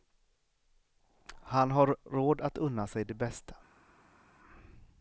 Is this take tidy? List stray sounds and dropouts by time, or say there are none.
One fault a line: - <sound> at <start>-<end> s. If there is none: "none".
none